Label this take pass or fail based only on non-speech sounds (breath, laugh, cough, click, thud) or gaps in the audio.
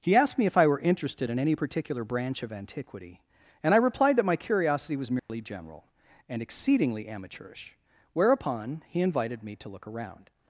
fail